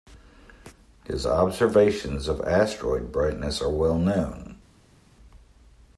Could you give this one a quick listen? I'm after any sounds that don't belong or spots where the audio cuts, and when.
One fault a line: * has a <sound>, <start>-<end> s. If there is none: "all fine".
all fine